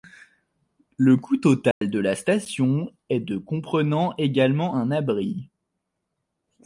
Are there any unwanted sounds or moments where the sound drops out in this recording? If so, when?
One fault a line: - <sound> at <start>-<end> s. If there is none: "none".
- dropout at 1.7-1.8 s